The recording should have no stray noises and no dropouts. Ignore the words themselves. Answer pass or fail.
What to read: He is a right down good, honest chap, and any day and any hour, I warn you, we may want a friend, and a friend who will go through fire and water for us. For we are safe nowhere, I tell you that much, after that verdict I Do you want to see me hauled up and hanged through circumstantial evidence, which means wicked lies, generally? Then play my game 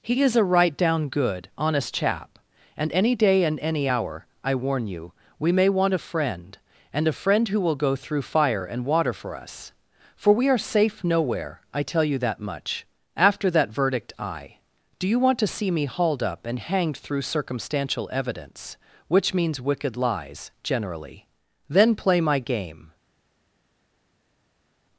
pass